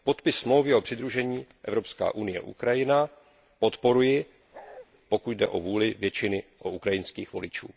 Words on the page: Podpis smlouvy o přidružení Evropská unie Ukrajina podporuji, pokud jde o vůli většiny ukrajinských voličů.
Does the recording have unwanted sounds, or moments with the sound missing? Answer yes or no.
yes